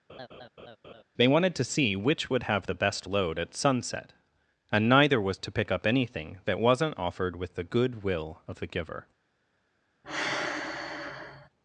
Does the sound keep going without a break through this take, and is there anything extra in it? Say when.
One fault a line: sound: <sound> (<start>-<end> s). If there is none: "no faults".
sound: laugh (0.1-1.0 s)
sound: sigh (10.0-11.5 s)